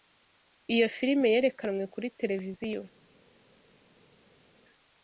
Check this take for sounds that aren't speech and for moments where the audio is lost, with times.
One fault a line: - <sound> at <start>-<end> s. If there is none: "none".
none